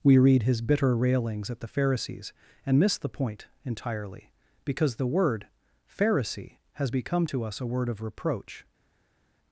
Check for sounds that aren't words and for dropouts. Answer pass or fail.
pass